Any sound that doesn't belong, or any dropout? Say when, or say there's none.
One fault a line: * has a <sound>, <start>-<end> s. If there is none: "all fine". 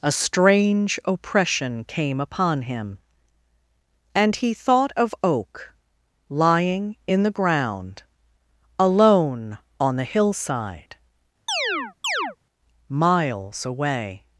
* has a chirp, 11.5-12.4 s